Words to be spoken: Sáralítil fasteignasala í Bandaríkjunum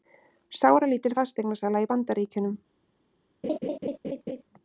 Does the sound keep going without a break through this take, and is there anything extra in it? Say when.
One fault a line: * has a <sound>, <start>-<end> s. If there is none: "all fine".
* has a laugh, 3.4-4.4 s